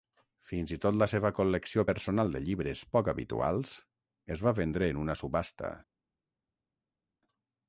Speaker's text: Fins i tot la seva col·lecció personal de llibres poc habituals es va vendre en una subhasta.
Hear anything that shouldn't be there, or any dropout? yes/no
no